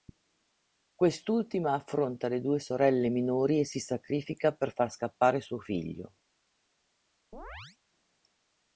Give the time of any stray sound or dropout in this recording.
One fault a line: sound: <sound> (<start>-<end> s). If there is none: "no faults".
sound: chirp (7.3-7.8 s)